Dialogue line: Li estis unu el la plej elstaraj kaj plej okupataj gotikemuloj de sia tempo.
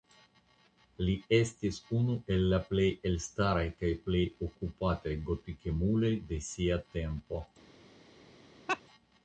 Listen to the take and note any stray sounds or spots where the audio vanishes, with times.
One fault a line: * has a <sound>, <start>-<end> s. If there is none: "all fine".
* has a laugh, 8.7-8.8 s